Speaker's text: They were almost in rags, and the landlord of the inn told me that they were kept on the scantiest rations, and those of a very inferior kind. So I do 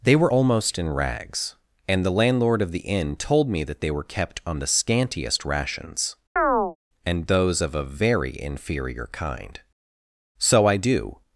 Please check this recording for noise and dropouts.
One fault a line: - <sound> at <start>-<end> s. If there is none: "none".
- chirp at 6.4-6.8 s